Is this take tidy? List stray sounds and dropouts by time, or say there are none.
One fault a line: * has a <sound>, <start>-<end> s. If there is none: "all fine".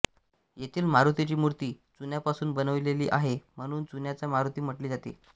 all fine